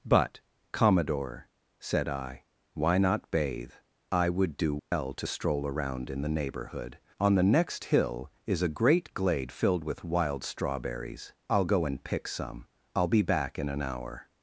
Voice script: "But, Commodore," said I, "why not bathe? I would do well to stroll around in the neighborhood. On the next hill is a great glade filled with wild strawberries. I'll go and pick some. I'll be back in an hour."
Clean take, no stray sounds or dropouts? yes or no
no